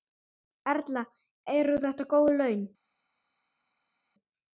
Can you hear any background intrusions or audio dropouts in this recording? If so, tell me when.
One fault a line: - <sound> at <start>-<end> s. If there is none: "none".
none